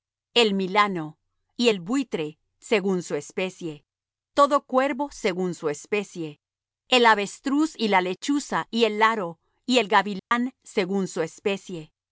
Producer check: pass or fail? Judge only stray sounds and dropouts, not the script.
fail